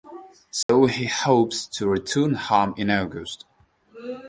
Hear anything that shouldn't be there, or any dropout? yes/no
yes